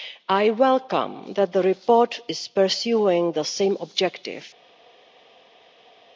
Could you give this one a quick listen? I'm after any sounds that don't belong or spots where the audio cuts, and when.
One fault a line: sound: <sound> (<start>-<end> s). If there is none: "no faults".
no faults